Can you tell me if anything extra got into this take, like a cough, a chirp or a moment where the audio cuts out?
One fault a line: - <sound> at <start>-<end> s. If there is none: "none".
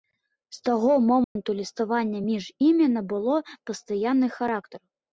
- dropout at 1.2-1.4 s